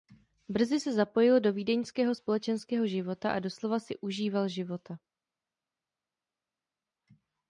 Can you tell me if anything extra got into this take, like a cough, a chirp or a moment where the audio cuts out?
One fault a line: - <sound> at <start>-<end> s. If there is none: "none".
none